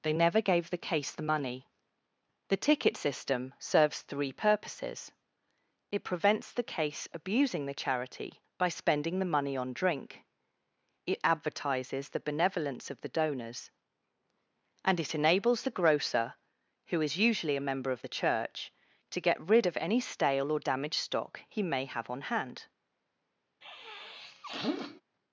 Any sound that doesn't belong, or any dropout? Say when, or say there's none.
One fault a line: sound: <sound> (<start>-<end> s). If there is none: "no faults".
sound: sniff (23.6-25.0 s)